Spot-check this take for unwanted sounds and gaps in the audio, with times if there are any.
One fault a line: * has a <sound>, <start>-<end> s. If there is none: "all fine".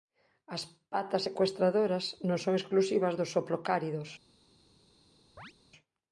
* has a chirp, 5.4-5.5 s